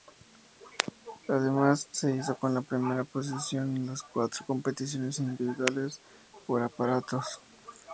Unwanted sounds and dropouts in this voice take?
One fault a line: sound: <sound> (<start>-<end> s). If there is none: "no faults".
no faults